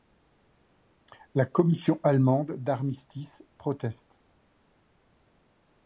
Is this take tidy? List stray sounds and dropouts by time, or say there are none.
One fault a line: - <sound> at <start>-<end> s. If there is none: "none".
none